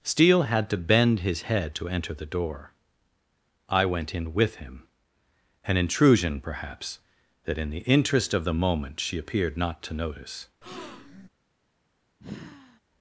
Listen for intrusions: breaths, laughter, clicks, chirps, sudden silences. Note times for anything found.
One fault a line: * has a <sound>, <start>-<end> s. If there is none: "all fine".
* has a breath, 10.6-11.3 s
* has a sigh, 12.2-12.8 s